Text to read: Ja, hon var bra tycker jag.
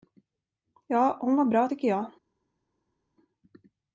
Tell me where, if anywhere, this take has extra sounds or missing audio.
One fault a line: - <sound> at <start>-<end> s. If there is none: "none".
none